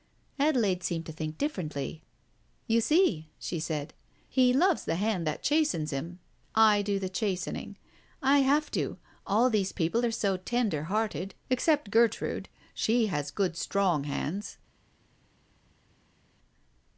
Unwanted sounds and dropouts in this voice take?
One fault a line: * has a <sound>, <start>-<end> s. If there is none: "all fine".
all fine